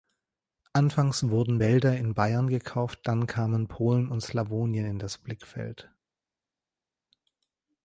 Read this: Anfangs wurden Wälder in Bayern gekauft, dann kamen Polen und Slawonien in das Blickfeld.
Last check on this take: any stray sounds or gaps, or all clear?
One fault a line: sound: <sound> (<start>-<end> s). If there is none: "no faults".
no faults